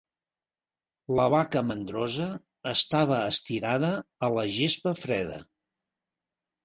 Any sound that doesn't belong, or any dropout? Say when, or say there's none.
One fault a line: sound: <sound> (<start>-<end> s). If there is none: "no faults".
no faults